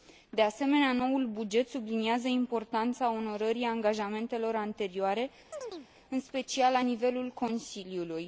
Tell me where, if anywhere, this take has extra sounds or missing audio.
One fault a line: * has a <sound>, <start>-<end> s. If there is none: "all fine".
* has a chirp, 5.5-5.9 s